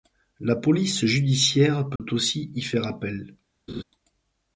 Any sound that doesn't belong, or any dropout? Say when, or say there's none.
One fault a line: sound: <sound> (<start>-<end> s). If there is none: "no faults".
sound: dropout (2.0-2.0 s)
sound: laugh (3.7-3.8 s)